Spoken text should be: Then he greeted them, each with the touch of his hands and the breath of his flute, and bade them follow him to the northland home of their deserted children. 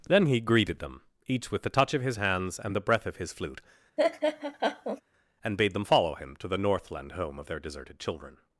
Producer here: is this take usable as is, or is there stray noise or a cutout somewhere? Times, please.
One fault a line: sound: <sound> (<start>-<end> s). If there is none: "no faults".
sound: laugh (4.0-5.0 s)